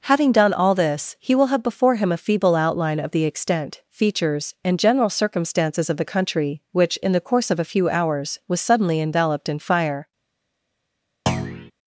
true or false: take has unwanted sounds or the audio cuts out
true